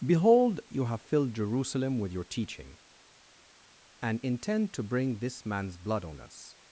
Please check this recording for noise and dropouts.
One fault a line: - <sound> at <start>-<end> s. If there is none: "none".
none